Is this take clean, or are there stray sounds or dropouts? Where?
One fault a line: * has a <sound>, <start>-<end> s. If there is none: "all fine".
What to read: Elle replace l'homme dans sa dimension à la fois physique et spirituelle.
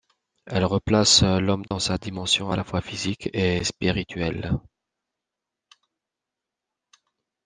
* has a dropout, 1.7-1.7 s